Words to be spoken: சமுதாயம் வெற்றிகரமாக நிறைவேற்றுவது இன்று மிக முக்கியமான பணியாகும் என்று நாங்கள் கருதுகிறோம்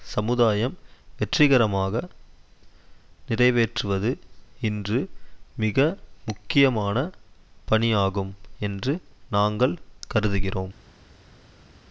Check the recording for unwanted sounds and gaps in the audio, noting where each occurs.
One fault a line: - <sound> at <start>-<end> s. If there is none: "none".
none